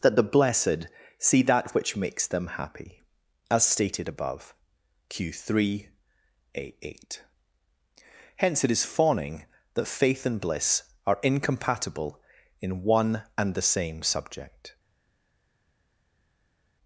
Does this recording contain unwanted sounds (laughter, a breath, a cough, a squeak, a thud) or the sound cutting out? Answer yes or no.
no